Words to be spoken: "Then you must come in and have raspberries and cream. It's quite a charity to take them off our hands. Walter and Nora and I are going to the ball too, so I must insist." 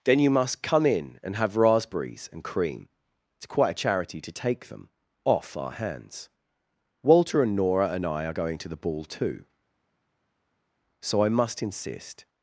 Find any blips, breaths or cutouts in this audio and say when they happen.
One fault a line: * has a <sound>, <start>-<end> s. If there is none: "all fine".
all fine